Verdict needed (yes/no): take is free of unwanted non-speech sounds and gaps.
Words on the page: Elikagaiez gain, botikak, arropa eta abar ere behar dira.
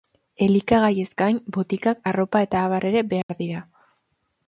no